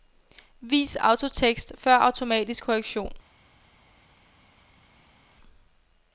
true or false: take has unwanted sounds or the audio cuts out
false